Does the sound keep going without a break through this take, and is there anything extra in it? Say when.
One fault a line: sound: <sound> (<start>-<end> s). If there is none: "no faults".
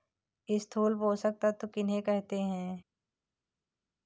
no faults